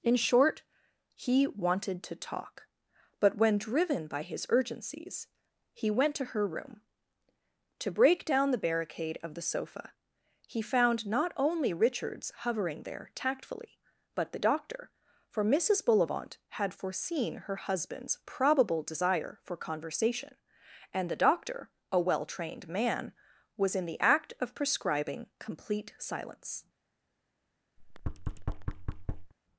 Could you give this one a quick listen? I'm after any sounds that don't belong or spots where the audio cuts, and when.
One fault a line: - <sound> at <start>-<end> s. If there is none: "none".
- thud at 27.8-29.3 s